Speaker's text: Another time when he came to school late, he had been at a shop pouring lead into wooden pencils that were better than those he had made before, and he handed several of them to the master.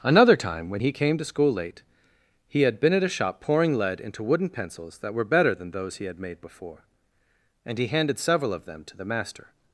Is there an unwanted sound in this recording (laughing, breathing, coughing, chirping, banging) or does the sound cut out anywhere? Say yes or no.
no